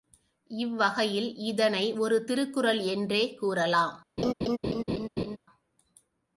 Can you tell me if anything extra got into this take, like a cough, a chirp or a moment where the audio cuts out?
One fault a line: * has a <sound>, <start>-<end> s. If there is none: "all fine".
* has a laugh, 4.2-5.4 s